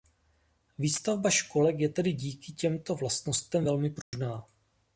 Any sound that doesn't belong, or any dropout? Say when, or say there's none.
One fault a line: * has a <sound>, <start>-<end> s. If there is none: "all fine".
* has a dropout, 4.0-4.1 s